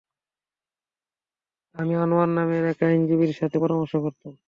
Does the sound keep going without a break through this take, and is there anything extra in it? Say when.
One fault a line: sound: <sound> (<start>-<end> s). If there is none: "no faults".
no faults